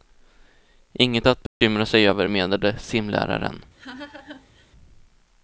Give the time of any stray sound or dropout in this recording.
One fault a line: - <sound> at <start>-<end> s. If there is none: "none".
- dropout at 1.5-1.6 s
- laugh at 3.7-4.7 s